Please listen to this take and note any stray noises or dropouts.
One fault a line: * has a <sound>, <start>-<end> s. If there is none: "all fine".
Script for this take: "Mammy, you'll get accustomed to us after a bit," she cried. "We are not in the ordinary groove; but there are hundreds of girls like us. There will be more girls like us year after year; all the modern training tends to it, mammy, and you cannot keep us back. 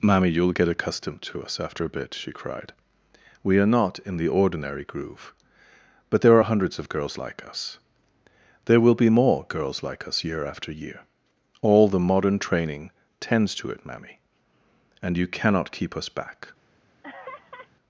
* has a laugh, 17.0-17.7 s